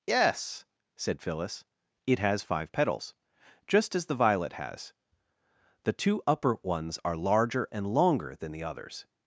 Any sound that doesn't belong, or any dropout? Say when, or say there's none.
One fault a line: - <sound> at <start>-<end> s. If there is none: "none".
none